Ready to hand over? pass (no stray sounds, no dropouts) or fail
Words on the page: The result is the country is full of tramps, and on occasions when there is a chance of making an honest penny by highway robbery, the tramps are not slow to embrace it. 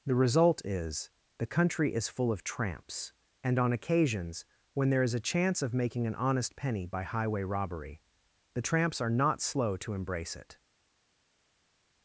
pass